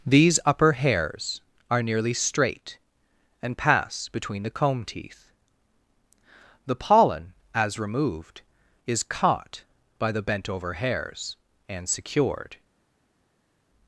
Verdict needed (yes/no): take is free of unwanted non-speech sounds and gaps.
yes